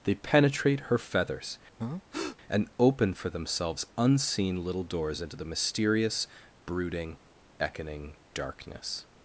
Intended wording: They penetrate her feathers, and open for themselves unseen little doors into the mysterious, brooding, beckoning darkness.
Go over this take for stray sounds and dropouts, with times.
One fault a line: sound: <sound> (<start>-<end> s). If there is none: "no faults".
sound: breath (1.8-2.4 s)